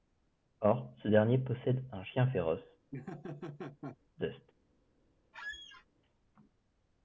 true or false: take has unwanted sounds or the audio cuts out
true